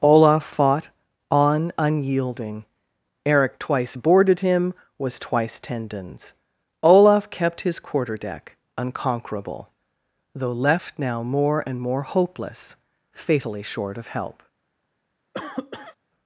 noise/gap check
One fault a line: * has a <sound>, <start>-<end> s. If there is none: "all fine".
* has a cough, 15.3-16.0 s